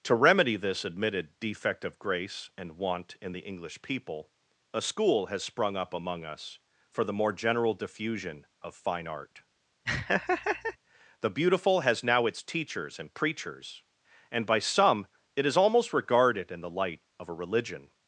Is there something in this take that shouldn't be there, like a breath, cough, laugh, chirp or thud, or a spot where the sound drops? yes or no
yes